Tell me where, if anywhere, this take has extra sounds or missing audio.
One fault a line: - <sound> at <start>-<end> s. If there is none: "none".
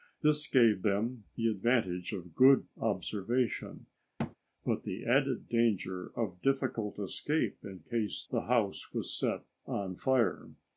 - thud at 4.2-4.4 s